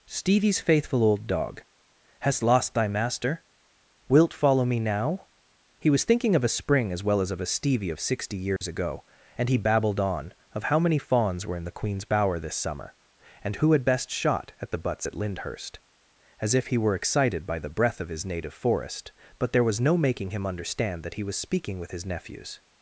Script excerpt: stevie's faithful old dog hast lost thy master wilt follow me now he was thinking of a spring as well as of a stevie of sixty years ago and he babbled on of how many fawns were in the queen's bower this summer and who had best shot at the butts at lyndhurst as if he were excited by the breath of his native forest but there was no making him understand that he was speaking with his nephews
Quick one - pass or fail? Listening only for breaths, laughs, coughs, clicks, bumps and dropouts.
fail